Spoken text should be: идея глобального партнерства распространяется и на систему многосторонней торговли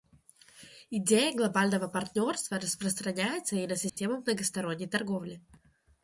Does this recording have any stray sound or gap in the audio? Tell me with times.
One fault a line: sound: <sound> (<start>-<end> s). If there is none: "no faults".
sound: dropout (3.9-4.0 s)